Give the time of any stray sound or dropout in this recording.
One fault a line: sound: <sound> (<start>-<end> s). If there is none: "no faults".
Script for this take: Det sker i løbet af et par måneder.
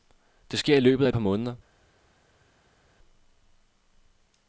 no faults